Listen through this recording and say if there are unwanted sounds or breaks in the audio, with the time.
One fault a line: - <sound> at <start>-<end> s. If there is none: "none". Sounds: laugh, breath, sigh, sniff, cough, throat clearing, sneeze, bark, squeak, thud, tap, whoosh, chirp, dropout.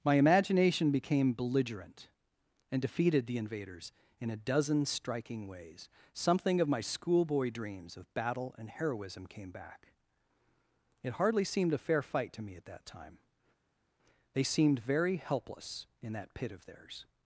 none